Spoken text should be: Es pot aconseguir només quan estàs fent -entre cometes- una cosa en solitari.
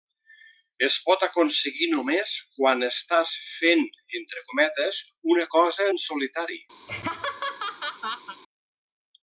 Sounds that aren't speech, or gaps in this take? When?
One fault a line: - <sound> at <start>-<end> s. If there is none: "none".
- laugh at 6.8-8.4 s